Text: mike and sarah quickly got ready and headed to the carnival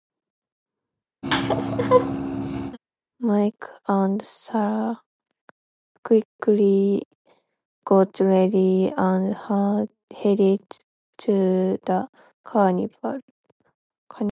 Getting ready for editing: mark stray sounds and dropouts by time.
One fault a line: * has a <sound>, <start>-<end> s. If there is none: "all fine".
* has a laugh, 1.2-2.8 s